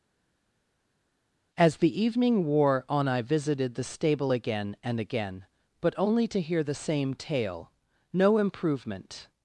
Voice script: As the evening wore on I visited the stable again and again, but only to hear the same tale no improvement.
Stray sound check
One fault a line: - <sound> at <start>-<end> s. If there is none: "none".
none